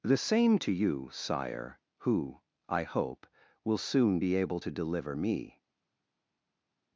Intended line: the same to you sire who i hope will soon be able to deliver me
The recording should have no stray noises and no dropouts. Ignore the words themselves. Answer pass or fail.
pass